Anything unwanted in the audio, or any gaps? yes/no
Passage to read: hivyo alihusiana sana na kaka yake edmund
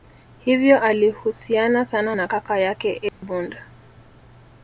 yes